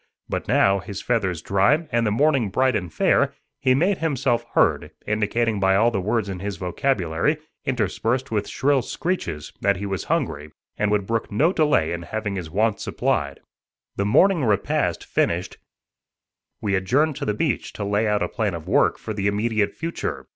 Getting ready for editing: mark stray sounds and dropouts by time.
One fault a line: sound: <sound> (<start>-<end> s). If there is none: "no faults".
no faults